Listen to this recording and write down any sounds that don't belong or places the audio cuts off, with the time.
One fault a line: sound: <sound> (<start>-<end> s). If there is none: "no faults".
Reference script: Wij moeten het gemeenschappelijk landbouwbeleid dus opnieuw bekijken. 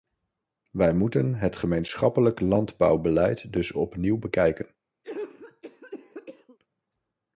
sound: cough (5.0-6.6 s)